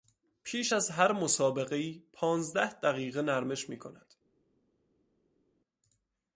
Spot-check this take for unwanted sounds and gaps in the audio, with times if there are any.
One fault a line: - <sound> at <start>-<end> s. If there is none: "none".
none